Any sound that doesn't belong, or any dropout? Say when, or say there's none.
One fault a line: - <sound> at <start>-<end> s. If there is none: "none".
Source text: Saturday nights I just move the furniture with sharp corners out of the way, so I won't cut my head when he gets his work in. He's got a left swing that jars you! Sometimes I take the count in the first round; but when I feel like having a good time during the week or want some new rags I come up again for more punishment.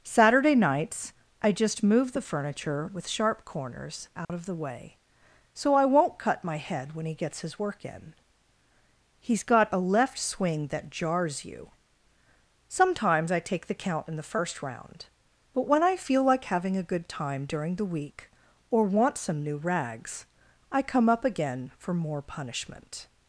- dropout at 4.2-4.3 s